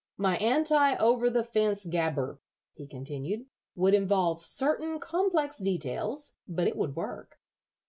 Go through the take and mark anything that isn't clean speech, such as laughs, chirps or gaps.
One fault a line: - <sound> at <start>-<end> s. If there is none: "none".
none